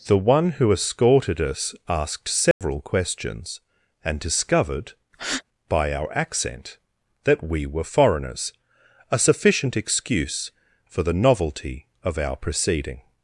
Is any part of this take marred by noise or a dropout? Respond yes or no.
yes